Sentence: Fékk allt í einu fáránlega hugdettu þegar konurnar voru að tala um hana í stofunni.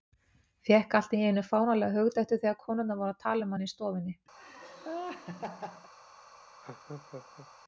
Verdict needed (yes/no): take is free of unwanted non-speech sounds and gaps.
no